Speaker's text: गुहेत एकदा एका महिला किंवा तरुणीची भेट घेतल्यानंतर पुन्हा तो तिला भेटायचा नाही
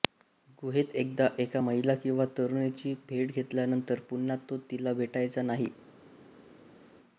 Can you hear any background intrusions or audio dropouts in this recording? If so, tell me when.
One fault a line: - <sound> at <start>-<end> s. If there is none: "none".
none